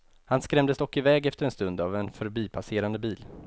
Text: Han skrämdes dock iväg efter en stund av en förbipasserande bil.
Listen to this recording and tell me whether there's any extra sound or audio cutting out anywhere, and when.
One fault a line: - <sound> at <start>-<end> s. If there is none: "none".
none